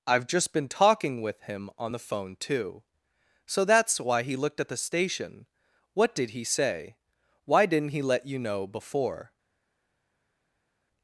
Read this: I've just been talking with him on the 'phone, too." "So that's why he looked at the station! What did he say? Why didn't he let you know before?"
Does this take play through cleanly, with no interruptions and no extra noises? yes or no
yes